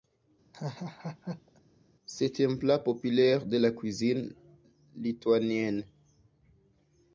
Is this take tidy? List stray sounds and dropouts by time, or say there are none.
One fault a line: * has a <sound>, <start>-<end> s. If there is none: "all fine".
* has a laugh, 0.5-1.6 s